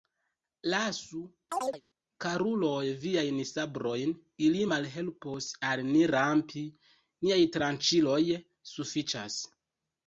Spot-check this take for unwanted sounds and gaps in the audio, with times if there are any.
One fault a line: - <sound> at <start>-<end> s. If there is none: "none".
- chirp at 1.5-1.8 s